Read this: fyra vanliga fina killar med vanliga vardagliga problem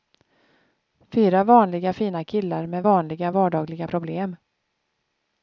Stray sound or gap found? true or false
false